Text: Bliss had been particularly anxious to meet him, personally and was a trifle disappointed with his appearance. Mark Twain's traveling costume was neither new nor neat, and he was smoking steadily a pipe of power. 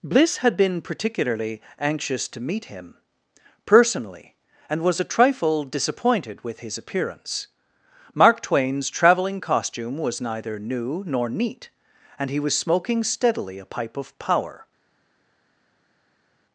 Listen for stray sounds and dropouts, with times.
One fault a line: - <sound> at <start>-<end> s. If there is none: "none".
none